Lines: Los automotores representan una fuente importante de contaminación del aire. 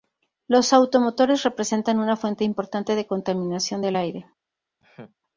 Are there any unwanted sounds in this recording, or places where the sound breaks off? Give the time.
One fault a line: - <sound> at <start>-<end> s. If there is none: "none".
- laugh at 4.8-5.2 s